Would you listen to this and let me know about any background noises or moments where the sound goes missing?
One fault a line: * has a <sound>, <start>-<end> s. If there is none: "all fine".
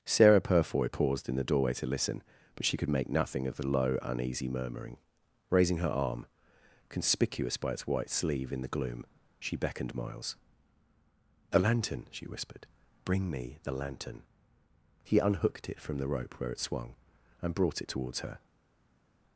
all fine